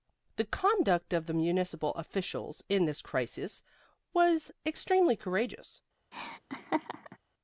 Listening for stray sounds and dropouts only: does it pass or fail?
fail